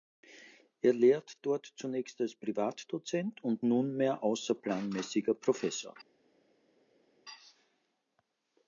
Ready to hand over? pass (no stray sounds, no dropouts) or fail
pass